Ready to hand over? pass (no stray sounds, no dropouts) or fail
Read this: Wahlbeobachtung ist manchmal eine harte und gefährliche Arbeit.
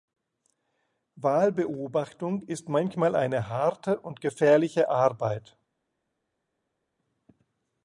pass